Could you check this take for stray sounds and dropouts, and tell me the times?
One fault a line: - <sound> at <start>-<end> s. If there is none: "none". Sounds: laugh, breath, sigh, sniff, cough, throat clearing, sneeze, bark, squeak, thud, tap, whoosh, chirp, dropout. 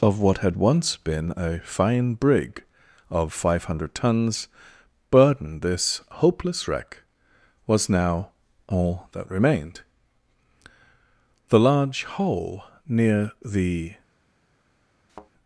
- thud at 15.1-15.3 s